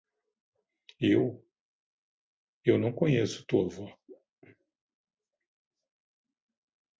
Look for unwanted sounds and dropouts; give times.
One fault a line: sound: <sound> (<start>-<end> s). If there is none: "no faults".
no faults